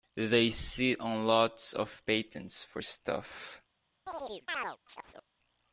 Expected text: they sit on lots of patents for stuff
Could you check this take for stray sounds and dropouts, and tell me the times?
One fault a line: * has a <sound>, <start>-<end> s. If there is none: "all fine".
* has a chirp, 4.1-5.3 s